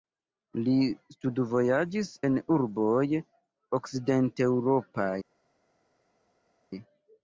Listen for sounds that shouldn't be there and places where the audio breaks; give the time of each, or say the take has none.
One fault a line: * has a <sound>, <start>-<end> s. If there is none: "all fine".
all fine